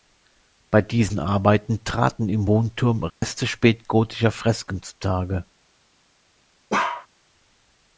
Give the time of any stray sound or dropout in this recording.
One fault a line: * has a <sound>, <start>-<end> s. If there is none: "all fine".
* has a dropout, 3.1-3.2 s
* has a bark, 6.7-7.1 s